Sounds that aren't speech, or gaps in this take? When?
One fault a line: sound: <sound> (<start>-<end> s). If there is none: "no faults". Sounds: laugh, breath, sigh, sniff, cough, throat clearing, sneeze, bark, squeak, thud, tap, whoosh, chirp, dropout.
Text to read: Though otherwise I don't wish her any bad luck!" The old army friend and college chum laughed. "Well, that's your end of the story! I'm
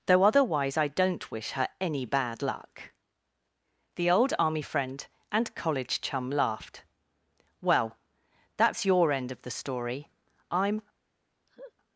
sound: laugh (11.5-11.7 s)